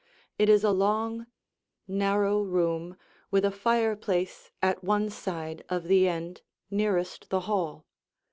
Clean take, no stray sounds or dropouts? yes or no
yes